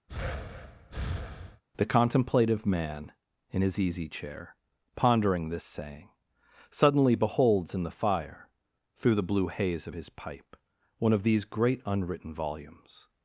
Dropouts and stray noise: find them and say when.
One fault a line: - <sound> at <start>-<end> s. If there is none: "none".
- breath at 0.1-1.6 s